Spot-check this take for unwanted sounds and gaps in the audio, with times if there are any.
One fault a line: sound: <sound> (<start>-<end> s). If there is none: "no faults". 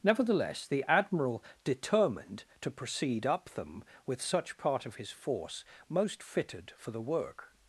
no faults